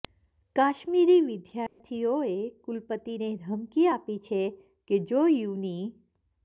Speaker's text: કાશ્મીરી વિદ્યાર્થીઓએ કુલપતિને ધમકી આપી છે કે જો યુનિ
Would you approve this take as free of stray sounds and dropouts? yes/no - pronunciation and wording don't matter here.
no